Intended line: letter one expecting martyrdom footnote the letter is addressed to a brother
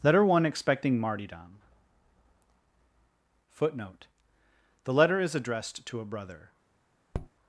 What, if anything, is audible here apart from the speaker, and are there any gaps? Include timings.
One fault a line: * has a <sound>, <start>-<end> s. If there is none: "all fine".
* has a tap, 7.1-7.3 s